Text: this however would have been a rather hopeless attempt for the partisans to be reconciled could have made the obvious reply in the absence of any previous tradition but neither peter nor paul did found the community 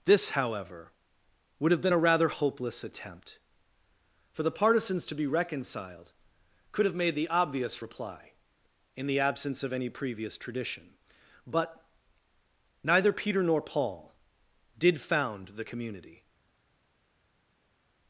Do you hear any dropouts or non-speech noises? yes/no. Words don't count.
no